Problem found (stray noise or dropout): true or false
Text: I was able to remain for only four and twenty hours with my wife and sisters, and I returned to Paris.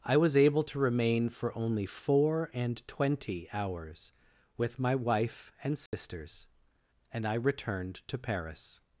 true